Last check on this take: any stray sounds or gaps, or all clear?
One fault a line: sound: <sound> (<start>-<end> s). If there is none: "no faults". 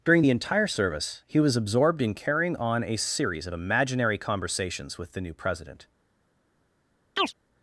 sound: chirp (7.2-7.3 s)